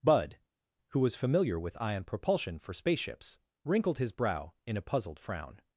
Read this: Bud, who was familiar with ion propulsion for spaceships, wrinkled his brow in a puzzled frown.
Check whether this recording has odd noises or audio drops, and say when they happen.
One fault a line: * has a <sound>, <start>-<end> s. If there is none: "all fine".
all fine